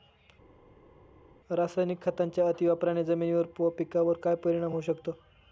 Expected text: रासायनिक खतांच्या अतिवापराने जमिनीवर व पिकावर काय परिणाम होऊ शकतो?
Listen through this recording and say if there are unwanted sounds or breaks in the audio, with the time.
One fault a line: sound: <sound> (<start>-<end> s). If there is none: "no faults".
no faults